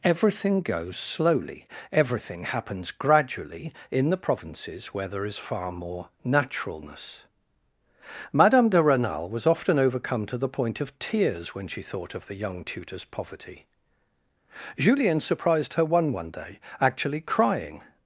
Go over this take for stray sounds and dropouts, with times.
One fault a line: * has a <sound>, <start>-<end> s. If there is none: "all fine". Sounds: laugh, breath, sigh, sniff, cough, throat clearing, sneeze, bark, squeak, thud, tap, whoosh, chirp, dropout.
all fine